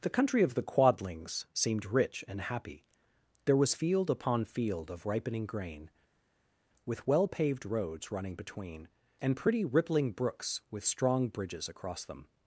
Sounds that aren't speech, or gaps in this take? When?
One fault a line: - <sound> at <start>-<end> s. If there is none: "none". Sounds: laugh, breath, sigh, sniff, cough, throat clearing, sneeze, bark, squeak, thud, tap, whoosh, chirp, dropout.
none